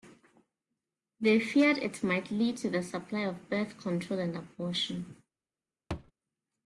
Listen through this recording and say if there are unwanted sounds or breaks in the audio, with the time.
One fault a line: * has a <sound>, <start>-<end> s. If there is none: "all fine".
* has a thud, 5.9-6.1 s